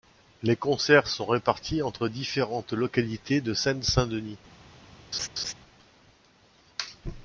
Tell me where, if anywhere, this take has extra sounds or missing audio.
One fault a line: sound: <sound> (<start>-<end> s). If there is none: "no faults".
sound: laugh (5.1-5.5 s)